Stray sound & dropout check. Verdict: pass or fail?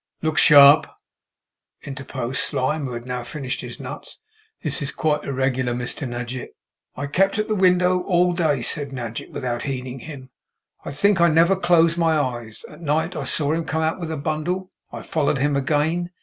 pass